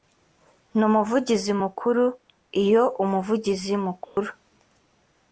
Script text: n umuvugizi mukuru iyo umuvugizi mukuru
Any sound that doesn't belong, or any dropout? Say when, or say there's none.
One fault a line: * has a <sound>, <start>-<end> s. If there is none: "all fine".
* has a dropout, 4.0-4.2 s